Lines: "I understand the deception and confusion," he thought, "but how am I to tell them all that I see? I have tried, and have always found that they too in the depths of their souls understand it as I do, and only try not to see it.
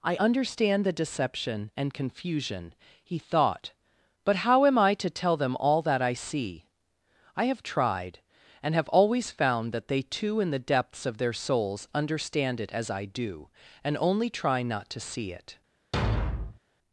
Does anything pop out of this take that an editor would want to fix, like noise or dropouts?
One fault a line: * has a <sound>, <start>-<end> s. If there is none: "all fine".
* has a thud, 15.9-16.6 s